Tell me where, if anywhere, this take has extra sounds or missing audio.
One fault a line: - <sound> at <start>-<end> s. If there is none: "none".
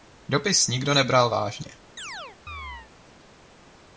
- chirp at 2.0-2.9 s